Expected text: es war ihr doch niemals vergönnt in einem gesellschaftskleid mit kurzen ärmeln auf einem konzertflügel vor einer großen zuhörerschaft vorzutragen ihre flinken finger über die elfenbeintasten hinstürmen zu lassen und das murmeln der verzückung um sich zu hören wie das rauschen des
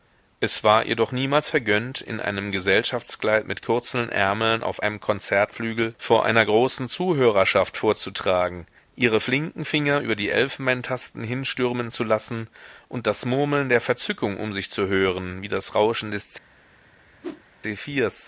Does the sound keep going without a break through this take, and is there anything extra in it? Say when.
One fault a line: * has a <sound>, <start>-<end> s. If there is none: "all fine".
* has a whoosh, 17.2-17.4 s